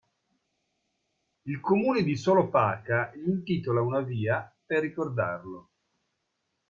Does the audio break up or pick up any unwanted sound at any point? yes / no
no